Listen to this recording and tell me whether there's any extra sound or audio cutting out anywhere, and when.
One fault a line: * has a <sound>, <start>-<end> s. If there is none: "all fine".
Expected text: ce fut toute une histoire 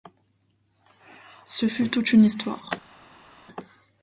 all fine